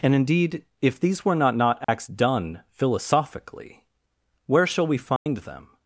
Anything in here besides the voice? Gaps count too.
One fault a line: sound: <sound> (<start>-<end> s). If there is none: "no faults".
sound: dropout (1.8-1.9 s)
sound: dropout (5.2-5.3 s)